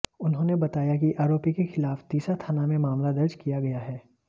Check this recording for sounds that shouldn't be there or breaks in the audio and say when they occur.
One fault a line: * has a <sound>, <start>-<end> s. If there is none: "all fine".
all fine